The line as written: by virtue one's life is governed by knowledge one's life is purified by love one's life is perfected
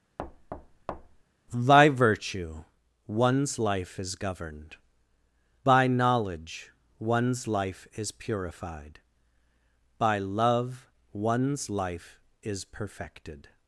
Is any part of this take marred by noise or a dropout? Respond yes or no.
yes